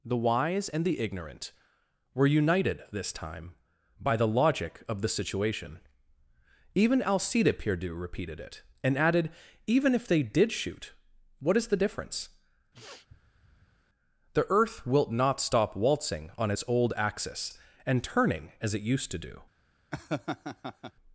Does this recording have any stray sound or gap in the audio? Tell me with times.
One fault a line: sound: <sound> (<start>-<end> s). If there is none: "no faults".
sound: sniff (12.7-13.8 s)
sound: laugh (19.9-20.9 s)